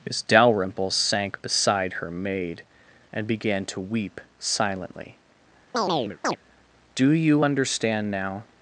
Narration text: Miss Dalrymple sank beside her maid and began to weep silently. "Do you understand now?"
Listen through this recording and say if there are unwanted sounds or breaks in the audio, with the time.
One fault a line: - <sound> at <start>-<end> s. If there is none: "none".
- chirp at 5.7-6.4 s